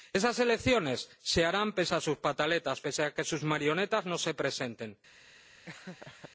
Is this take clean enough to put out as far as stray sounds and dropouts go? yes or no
no